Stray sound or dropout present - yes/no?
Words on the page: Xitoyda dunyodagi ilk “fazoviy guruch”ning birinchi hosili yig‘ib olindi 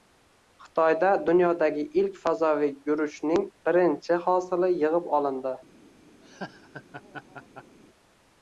yes